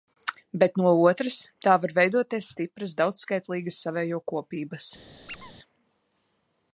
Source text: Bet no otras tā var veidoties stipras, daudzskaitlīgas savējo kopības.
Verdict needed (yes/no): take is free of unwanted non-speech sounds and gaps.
no